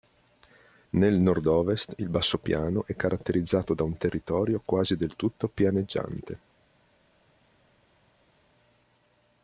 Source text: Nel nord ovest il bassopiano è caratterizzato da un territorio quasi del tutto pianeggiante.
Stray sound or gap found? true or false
false